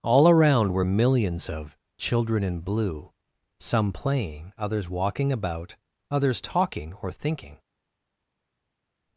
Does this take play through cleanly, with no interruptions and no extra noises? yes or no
yes